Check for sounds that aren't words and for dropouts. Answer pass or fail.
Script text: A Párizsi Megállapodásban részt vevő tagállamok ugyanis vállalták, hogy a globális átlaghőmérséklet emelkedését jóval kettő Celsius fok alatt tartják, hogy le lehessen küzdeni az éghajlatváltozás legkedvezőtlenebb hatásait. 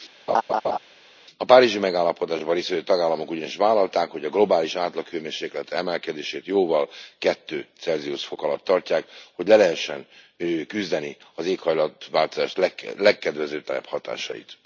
fail